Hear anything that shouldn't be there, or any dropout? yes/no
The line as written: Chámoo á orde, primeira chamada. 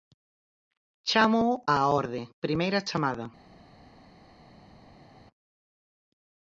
no